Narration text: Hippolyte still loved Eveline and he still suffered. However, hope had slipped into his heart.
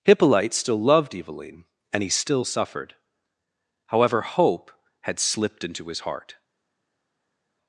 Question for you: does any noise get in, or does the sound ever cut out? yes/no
no